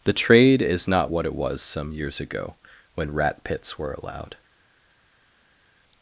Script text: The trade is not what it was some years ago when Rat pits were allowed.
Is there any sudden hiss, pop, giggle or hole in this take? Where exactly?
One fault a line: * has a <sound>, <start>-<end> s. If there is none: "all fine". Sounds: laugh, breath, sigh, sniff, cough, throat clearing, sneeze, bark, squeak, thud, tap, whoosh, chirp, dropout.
all fine